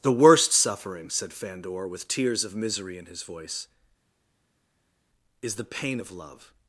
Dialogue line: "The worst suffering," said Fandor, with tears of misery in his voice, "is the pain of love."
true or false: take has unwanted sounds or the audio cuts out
false